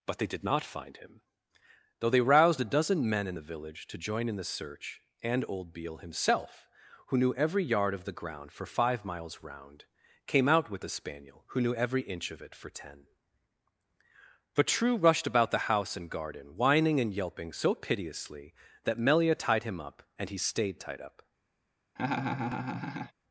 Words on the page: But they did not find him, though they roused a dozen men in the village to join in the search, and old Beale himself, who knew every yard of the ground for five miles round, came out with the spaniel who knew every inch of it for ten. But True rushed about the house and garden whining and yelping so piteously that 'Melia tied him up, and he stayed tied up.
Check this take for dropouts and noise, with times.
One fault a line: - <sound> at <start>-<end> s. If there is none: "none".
- laugh at 22.0-23.1 s